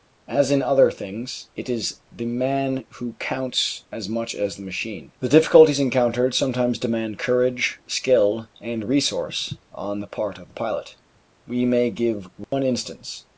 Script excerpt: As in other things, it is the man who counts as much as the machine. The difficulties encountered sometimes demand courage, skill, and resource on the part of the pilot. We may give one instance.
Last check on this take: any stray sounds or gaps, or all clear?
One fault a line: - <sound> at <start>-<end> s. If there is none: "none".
- dropout at 12.4-12.5 s